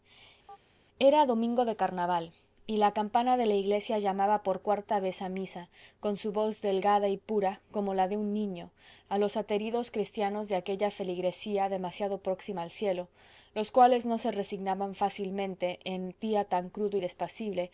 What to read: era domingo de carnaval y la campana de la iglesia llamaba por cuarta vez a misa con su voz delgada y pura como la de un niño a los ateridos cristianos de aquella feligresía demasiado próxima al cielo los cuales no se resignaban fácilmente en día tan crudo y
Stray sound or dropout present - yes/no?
yes